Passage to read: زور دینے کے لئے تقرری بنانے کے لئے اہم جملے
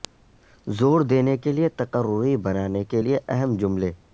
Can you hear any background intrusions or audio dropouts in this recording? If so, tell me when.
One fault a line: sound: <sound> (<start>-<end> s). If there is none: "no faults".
no faults